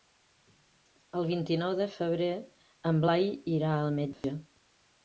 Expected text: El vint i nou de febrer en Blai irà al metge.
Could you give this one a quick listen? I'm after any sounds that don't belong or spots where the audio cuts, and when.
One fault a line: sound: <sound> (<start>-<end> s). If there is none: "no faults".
sound: dropout (4.1-4.2 s)